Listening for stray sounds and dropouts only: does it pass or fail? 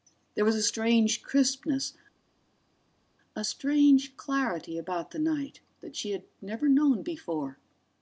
pass